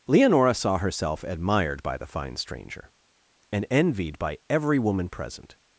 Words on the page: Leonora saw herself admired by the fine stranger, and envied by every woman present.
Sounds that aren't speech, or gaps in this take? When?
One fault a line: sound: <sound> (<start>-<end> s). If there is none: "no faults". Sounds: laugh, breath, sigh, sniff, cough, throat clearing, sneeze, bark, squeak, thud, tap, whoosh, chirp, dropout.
no faults